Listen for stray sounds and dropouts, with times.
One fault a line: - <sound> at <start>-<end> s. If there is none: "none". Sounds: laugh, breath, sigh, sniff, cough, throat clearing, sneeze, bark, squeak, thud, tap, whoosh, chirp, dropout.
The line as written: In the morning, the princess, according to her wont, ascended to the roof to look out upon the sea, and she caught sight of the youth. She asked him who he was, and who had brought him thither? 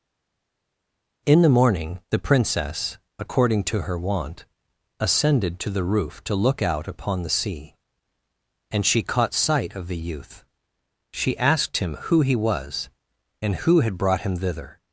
none